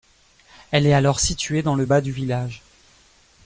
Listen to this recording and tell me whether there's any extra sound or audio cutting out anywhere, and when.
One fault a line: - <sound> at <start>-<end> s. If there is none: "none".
none